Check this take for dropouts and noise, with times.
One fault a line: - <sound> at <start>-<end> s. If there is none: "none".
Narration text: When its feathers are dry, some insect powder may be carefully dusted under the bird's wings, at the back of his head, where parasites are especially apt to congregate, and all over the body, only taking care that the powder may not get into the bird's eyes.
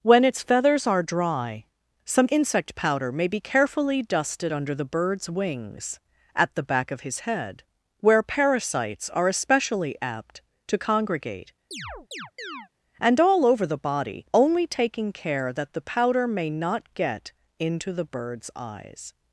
- chirp at 11.7-12.7 s